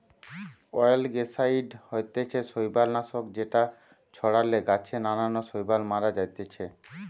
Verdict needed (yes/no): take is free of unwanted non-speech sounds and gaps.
yes